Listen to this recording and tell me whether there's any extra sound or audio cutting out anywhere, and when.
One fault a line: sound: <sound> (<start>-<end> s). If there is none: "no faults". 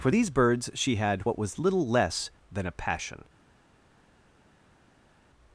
no faults